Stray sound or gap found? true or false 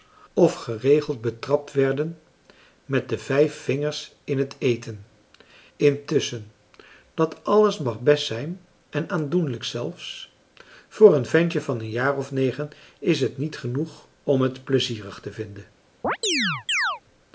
true